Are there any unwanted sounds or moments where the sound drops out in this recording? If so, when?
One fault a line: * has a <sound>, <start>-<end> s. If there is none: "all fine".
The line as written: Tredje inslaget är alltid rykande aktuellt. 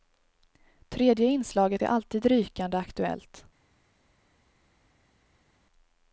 all fine